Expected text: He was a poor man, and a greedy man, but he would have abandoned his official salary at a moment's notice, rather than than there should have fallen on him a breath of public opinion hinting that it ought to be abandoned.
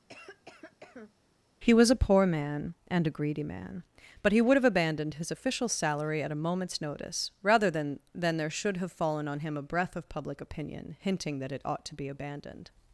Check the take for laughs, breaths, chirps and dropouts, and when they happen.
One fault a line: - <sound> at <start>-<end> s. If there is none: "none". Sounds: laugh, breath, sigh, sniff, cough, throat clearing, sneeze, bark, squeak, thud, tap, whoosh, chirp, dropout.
- cough at 0.1-1.1 s